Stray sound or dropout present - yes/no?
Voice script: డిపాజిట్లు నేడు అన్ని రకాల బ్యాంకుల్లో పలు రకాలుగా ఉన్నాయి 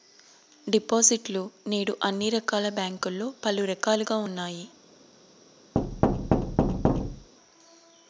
yes